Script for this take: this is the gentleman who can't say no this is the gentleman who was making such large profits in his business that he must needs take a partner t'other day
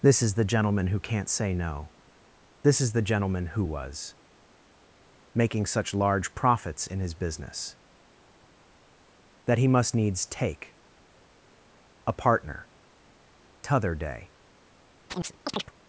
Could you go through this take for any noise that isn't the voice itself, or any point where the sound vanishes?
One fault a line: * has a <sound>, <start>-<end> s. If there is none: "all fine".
* has a chirp, 15.1-15.7 s